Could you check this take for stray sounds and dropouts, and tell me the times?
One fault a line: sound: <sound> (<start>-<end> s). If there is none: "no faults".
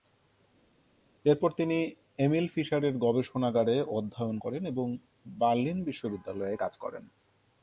no faults